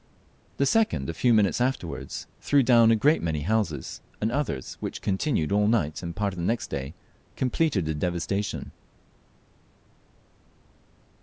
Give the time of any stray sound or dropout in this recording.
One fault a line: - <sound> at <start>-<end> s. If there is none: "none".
none